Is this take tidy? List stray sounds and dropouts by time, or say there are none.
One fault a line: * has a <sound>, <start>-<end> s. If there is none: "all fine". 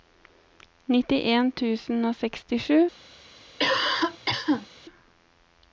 * has a cough, 3.6-4.7 s